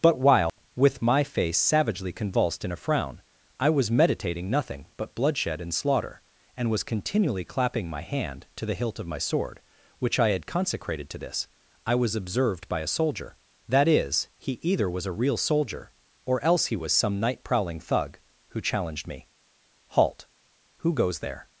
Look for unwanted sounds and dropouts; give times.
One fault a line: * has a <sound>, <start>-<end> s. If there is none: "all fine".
* has a dropout, 0.5-0.6 s